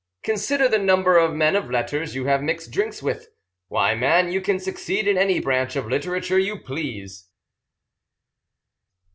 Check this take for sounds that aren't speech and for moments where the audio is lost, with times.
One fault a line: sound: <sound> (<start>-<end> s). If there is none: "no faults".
no faults